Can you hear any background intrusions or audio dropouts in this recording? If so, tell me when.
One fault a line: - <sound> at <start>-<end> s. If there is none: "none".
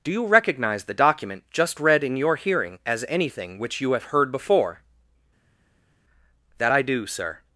none